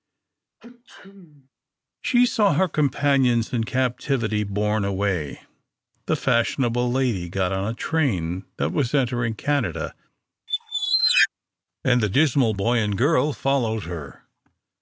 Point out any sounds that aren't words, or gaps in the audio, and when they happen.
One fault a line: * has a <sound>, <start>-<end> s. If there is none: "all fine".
* has a sneeze, 0.6-1.5 s
* has a squeak, 10.5-11.3 s